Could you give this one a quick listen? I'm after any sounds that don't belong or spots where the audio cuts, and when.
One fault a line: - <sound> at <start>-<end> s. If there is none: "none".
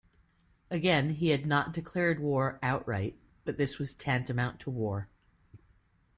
none